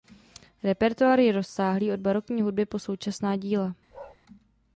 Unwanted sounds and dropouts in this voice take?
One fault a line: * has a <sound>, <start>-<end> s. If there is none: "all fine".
* has a bark, 3.9-4.2 s